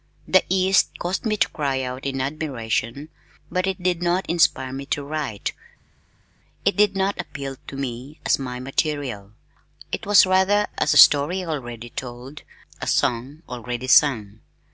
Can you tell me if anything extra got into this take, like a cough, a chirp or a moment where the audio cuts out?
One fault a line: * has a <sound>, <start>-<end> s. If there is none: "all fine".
all fine